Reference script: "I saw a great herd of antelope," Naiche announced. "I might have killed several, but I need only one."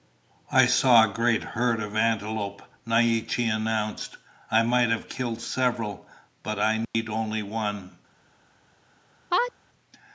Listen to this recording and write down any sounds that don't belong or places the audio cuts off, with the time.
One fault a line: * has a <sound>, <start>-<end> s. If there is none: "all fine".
* has a dropout, 6.8-6.9 s
* has a sneeze, 9.3-9.5 s